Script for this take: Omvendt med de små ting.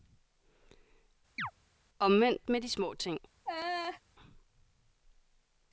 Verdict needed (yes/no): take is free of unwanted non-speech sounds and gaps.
no